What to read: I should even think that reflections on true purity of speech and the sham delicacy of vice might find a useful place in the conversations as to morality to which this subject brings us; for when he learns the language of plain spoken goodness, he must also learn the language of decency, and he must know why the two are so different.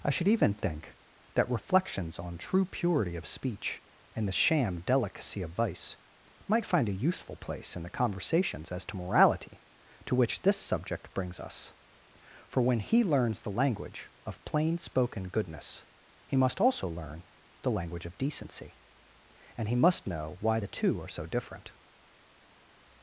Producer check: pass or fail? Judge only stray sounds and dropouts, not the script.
pass